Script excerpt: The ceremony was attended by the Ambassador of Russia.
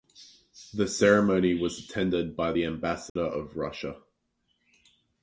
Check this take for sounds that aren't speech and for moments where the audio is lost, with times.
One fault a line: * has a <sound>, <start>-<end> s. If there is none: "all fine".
* has a dropout, 3.1-3.2 s